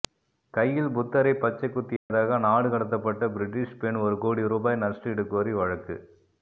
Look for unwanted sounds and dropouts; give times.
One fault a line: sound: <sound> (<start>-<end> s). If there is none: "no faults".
sound: dropout (2.0-2.1 s)